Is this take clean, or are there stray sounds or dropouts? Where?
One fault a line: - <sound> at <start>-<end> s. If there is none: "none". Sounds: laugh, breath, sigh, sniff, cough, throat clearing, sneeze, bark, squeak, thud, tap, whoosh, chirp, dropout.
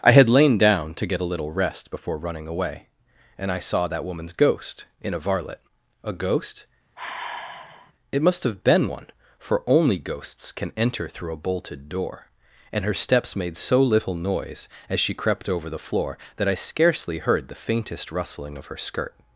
- sigh at 7.0-7.9 s